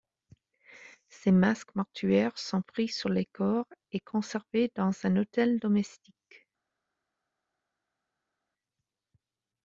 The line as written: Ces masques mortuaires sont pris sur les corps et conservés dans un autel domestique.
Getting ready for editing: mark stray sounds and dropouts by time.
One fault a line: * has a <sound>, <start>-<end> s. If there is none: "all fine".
all fine